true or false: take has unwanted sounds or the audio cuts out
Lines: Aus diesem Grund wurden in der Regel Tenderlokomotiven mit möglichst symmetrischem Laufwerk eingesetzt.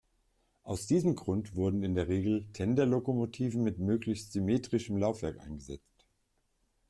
false